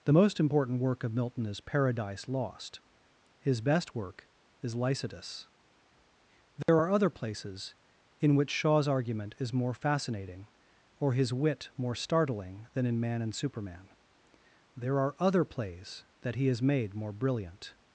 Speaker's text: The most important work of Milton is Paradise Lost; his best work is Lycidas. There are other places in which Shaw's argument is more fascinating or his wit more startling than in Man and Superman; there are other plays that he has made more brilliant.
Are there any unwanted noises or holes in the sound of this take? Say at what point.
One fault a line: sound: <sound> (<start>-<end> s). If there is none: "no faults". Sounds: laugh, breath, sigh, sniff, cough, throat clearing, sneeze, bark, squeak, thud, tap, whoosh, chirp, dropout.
sound: dropout (6.6-6.7 s)